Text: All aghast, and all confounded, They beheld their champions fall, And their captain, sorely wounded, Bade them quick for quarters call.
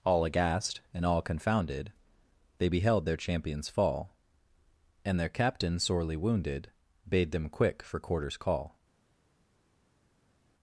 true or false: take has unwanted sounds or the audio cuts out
false